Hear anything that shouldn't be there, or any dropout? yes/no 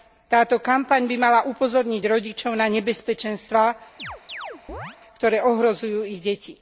yes